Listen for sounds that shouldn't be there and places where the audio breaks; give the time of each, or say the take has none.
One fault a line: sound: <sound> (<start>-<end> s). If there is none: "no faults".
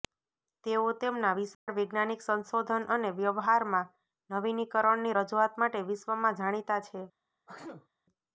sound: dropout (1.5-1.7 s)
sound: sneeze (7.5-7.9 s)